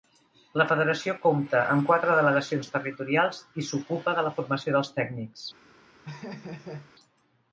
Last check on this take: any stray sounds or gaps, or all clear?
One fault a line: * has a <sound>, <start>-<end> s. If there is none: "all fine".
* has a laugh, 6.0-6.9 s